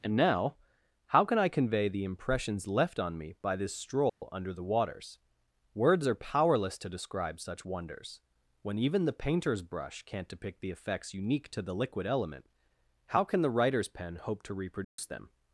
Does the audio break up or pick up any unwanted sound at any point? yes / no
yes